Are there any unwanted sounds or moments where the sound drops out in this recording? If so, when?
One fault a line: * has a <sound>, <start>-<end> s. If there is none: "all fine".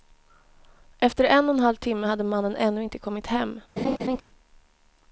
* has a laugh, 3.8-4.2 s